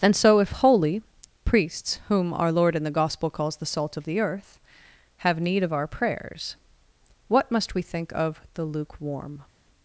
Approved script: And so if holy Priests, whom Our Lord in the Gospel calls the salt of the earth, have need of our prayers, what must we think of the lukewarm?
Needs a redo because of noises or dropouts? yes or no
no